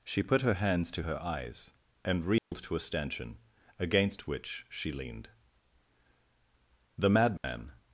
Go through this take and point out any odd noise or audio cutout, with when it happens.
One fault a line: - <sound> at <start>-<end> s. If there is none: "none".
- dropout at 2.4-2.5 s
- dropout at 7.4-7.4 s